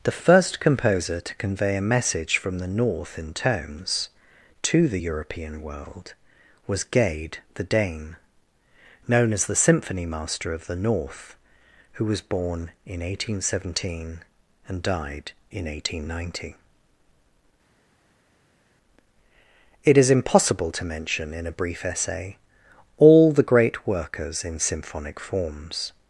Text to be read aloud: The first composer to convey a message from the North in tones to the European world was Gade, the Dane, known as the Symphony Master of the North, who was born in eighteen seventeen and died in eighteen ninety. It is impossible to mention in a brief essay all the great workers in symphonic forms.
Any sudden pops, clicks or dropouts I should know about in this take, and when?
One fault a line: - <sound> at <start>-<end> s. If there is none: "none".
none